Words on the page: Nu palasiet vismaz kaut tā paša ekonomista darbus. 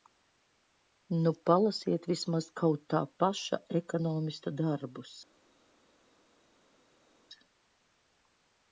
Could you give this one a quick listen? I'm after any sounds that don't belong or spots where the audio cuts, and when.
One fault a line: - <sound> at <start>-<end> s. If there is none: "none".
none